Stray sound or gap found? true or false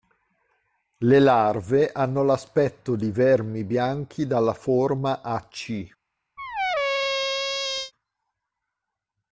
true